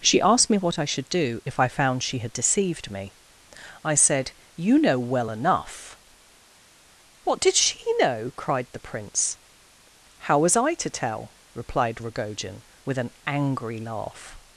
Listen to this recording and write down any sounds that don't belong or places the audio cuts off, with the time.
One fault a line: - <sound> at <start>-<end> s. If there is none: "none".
none